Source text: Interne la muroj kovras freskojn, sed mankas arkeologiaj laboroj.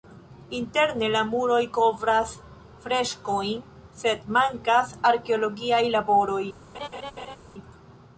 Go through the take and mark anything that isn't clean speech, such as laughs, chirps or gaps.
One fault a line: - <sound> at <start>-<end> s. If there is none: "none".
- laugh at 6.7-7.4 s